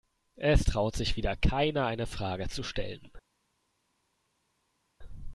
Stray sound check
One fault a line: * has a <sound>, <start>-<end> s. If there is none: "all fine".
all fine